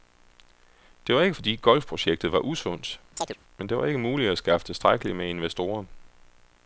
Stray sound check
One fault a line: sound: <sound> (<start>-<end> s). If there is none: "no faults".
sound: chirp (3.2-3.4 s)